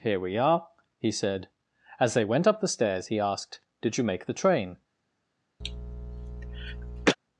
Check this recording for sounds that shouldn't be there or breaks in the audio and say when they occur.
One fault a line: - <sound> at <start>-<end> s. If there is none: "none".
- cough at 5.6-7.2 s